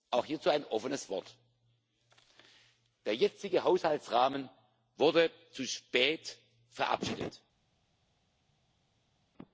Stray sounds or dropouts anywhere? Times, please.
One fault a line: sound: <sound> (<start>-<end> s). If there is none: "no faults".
no faults